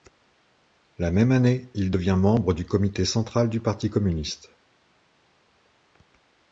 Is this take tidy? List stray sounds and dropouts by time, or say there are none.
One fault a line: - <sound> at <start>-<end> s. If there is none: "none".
none